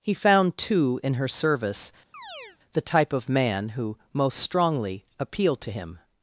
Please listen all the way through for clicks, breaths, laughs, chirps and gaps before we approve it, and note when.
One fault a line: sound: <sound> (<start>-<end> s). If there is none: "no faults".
sound: chirp (2.1-2.6 s)